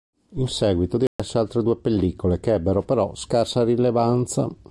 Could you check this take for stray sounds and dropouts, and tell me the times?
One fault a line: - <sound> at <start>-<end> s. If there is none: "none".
- dropout at 1.1-1.2 s